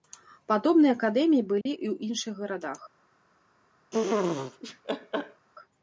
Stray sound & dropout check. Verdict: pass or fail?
fail